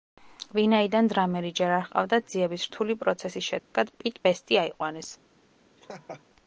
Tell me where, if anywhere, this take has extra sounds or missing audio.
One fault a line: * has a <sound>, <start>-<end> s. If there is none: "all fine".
* has a dropout, 3.6-3.7 s
* has a laugh, 5.8-6.2 s